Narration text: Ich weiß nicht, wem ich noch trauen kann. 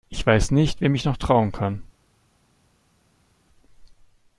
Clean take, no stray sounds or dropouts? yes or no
yes